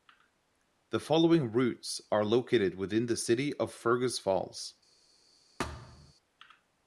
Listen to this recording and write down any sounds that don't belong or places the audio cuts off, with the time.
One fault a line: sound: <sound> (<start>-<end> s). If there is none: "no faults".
sound: thud (5.6-6.1 s)